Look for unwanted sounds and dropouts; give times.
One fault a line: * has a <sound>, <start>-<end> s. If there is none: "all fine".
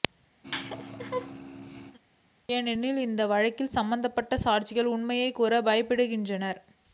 * has a laugh, 0.4-2.0 s